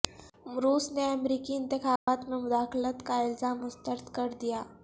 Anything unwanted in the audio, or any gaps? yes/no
yes